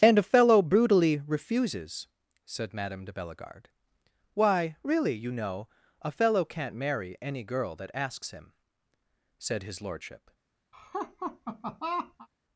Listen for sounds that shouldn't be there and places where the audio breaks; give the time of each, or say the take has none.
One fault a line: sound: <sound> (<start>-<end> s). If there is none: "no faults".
sound: laugh (10.7-12.3 s)